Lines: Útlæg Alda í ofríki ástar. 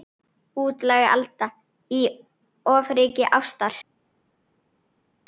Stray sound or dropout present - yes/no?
no